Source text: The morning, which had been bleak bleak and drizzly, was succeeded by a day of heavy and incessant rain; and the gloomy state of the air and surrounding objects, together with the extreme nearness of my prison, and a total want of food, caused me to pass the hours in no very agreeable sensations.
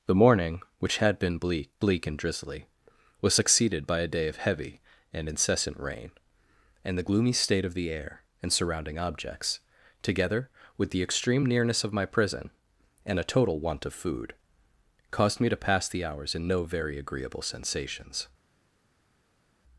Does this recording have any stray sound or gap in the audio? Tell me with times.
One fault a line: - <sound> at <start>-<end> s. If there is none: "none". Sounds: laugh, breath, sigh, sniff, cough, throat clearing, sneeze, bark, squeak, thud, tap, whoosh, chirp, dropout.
none